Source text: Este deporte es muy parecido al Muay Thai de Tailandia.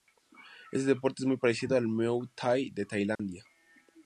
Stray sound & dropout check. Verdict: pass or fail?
fail